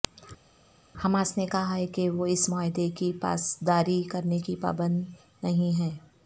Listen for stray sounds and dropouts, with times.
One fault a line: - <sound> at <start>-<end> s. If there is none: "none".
none